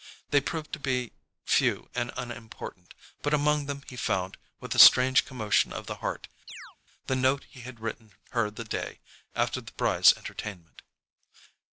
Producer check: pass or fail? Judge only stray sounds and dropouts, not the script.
fail